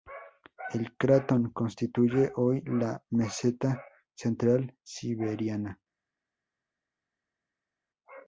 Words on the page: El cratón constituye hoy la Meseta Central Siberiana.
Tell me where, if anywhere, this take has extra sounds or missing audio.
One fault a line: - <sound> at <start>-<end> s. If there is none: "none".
none